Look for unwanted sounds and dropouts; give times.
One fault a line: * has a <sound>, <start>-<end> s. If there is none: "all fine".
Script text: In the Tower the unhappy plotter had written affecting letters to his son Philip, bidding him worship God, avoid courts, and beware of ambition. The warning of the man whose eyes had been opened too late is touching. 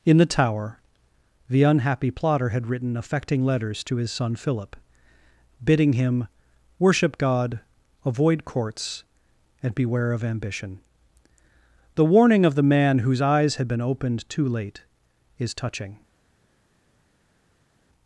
all fine